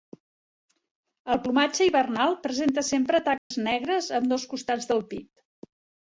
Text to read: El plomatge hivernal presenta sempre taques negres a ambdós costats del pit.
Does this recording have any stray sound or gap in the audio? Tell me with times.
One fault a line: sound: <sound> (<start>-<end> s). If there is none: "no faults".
sound: dropout (3.4-3.5 s)